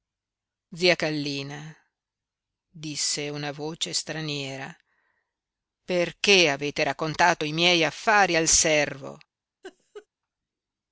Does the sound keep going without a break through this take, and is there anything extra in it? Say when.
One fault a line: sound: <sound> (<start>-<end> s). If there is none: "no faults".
sound: laugh (9.6-10.1 s)